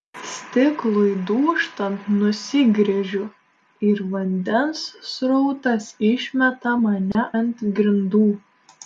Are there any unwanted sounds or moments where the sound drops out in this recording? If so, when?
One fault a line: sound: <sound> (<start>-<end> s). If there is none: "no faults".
sound: dropout (7.1-7.1 s)